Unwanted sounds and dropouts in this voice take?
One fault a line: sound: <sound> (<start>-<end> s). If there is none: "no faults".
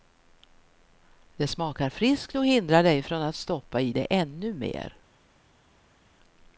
no faults